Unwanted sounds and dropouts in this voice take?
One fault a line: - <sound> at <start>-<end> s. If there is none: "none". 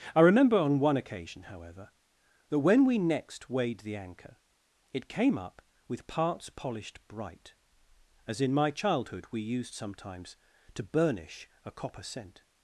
none